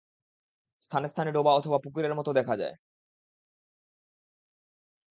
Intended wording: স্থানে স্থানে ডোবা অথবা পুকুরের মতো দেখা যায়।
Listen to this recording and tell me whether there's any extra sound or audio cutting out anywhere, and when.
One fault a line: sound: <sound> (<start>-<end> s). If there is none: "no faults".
no faults